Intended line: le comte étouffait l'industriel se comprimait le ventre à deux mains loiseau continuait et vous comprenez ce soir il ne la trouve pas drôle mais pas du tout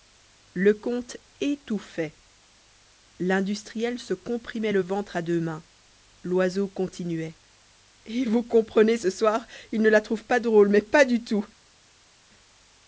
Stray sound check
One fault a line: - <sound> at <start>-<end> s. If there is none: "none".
none